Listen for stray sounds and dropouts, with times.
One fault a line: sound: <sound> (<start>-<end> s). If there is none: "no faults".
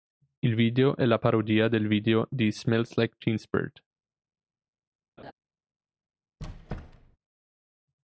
sound: laugh (5.2-5.3 s)
sound: squeak (6.4-7.2 s)